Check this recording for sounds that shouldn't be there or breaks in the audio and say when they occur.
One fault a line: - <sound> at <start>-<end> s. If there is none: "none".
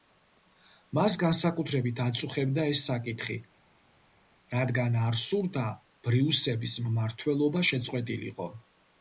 none